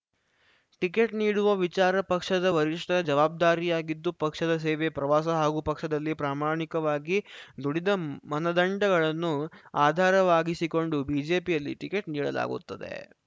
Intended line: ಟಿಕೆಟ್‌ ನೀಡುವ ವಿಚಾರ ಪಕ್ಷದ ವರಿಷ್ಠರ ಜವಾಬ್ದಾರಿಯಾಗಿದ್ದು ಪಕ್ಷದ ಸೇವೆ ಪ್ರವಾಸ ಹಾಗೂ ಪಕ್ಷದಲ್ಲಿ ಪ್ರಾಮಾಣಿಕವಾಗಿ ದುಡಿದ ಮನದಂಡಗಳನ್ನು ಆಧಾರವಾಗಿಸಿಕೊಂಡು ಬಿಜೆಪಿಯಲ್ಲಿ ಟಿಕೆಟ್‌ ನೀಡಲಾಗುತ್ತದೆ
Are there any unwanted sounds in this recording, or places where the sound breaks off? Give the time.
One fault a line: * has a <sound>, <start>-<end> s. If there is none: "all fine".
all fine